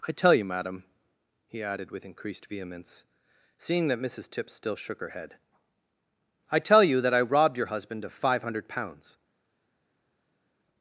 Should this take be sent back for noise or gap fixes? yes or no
no